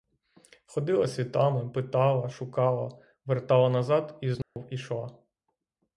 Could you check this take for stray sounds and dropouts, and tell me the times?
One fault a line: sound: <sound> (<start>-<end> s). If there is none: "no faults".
sound: dropout (4.4-4.6 s)